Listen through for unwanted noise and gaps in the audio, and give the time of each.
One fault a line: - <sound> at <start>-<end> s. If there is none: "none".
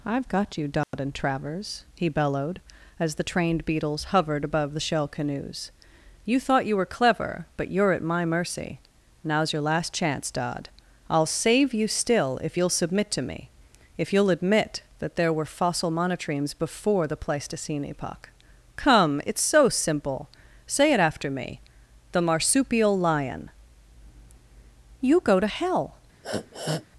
- dropout at 0.8-0.9 s
- sniff at 26.2-26.9 s